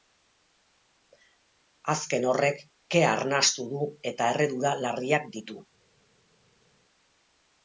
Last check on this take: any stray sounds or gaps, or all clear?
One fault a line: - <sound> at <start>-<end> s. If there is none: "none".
none